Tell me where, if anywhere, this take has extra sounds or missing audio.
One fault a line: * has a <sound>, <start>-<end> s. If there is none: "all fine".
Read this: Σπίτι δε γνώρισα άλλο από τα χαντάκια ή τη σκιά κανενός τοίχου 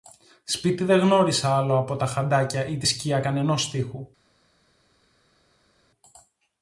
all fine